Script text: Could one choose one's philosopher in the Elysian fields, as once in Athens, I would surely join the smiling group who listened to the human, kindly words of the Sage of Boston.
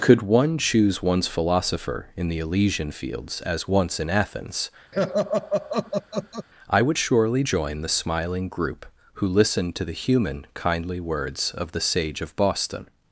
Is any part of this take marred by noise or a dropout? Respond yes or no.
yes